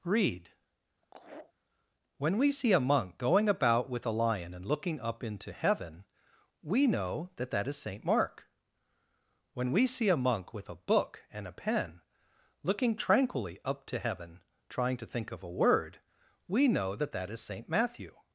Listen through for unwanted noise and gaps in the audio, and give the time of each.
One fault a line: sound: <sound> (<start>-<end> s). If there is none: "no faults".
sound: laugh (1.0-1.5 s)